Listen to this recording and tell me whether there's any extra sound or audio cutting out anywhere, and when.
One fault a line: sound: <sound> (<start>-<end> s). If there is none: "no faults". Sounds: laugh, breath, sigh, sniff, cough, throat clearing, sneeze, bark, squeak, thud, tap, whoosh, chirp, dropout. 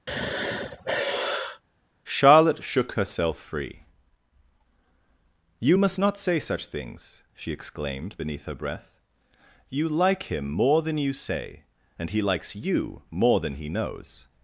sound: sigh (0.1-1.6 s)